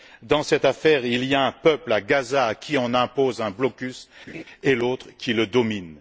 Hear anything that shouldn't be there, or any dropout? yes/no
yes